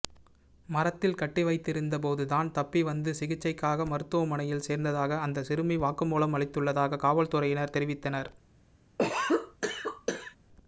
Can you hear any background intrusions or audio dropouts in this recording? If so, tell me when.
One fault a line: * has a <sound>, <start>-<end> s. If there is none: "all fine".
* has a cough, 9.0-10.4 s